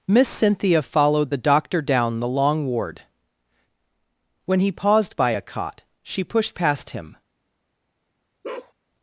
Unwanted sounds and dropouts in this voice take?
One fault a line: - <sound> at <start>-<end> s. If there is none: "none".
- bark at 8.4-8.7 s